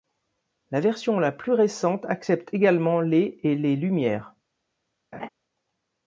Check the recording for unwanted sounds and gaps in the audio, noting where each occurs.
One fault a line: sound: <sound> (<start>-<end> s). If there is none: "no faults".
sound: laugh (5.1-5.3 s)